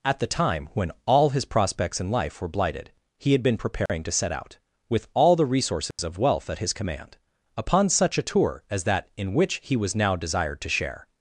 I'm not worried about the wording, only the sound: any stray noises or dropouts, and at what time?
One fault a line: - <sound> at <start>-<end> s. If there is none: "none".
- dropout at 3.9-3.9 s
- dropout at 5.9-6.0 s